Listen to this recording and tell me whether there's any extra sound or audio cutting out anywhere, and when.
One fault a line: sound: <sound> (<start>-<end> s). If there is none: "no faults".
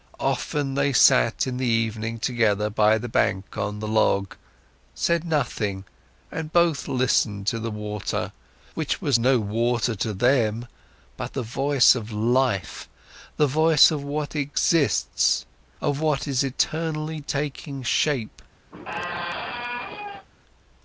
sound: squeak (18.7-20.3 s)